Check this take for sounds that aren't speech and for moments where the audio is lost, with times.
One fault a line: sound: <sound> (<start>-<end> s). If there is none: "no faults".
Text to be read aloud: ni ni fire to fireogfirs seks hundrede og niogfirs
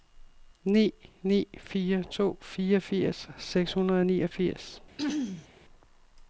sound: throat clearing (5.0-5.5 s)